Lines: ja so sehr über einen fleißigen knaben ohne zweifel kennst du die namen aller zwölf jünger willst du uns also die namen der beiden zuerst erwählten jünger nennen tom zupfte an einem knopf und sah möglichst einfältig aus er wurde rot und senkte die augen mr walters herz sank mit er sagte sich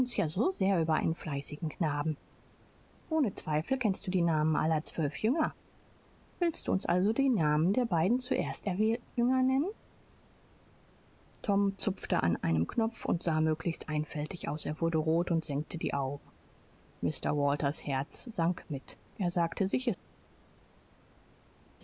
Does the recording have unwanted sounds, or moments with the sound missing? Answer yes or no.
no